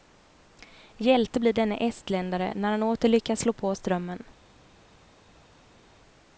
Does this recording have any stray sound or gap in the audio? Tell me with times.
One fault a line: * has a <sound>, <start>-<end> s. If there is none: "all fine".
all fine